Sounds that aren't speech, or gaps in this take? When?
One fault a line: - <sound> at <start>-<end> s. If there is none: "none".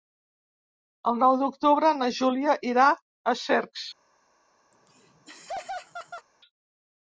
- laugh at 4.7-6.3 s